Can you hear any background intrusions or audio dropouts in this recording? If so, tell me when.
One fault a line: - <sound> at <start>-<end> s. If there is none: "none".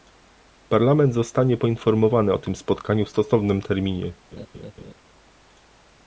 - laugh at 4.3-4.9 s